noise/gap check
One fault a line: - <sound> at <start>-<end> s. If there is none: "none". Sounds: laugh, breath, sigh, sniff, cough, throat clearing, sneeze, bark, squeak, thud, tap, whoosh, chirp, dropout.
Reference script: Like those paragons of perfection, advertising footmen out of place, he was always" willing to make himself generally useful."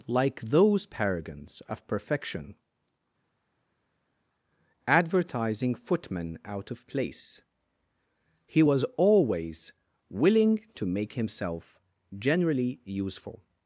none